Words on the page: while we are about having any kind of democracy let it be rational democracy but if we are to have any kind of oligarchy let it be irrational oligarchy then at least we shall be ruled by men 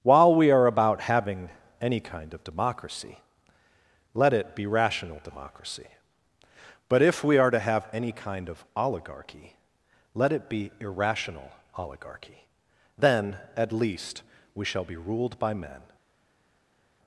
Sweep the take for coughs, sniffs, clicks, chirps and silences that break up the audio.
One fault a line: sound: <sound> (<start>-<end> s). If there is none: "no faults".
no faults